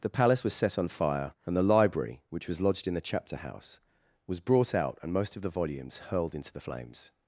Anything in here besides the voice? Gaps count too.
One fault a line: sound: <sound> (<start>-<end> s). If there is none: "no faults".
no faults